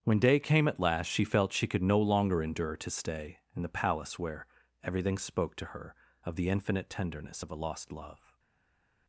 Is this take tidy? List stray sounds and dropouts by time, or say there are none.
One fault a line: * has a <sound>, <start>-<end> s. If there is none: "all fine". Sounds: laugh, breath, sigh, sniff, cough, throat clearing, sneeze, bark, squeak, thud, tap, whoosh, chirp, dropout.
all fine